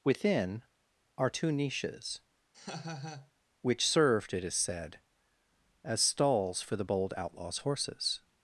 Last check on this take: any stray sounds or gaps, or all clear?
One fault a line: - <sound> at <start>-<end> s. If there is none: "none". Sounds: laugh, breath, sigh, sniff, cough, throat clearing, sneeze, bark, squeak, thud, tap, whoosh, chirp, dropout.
- laugh at 2.5-3.3 s